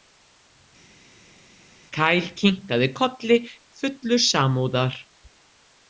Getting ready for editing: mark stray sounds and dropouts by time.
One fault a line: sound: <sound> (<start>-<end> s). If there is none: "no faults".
no faults